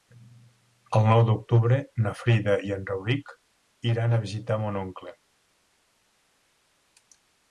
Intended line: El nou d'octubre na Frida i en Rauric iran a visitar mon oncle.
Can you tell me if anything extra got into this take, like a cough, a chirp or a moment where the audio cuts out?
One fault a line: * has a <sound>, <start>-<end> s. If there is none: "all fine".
all fine